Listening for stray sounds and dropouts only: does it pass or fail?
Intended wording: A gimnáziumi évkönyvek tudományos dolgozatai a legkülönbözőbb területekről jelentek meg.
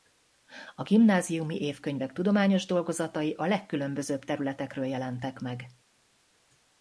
pass